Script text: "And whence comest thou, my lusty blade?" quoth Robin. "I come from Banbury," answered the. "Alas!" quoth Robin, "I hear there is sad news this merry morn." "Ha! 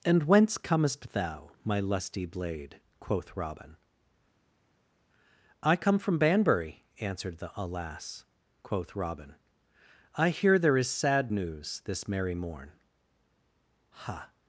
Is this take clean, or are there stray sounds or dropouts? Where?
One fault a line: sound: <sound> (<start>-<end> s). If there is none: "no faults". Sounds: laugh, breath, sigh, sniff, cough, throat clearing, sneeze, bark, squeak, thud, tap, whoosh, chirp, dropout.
no faults